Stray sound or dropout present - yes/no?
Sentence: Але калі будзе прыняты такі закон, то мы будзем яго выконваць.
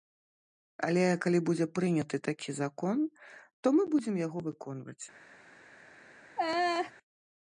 yes